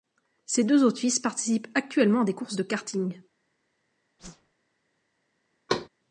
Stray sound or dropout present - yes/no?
yes